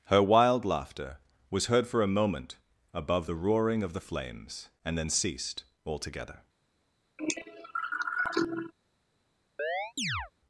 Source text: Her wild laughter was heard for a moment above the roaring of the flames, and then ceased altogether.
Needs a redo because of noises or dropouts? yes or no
yes